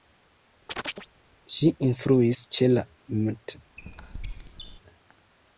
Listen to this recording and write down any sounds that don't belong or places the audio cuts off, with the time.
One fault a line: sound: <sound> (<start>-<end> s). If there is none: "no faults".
sound: chirp (0.7-1.1 s)
sound: squeak (3.8-4.8 s)